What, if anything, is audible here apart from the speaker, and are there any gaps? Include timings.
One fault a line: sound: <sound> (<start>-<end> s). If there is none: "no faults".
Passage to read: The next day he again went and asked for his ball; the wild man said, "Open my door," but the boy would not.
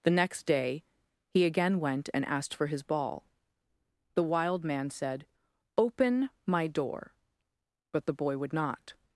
no faults